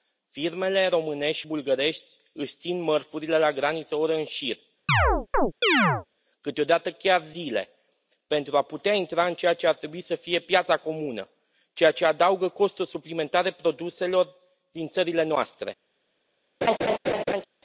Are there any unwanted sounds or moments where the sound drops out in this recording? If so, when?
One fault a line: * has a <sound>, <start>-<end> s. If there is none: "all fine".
* has a chirp, 4.9-6.1 s
* has a laugh, 16.6-17.4 s